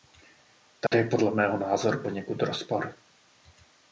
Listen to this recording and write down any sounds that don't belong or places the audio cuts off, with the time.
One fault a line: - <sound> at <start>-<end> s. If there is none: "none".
- dropout at 0.9-0.9 s